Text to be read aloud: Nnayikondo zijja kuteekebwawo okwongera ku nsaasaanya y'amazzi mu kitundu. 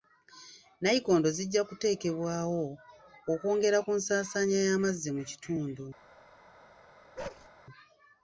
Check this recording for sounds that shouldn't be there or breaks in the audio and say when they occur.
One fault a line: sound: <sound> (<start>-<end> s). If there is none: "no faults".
sound: bark (7.2-7.5 s)